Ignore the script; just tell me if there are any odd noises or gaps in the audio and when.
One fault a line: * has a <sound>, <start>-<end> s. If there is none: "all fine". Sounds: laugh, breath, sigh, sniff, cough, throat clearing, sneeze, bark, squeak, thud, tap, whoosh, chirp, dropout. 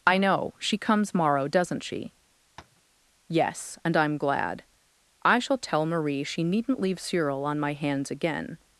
* has a tap, 2.6-2.8 s